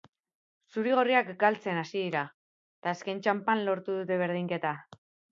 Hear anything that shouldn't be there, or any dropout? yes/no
no